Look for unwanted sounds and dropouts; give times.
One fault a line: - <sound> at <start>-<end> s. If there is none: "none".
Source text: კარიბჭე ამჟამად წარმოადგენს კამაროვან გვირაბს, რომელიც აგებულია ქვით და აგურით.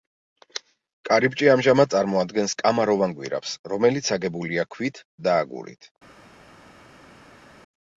none